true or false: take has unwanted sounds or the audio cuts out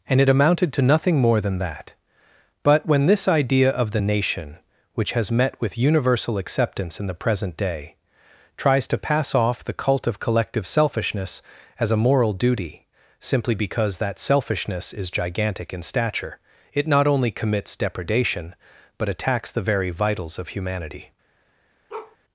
true